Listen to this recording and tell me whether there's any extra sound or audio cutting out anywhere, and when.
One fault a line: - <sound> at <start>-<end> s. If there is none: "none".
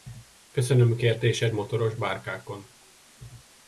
none